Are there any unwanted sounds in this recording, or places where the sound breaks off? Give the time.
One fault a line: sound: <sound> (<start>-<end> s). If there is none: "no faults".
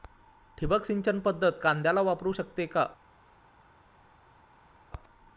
no faults